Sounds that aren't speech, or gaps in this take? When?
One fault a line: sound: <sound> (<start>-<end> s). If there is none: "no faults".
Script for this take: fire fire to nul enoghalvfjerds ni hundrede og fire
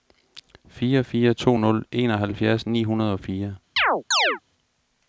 sound: chirp (3.8-4.4 s)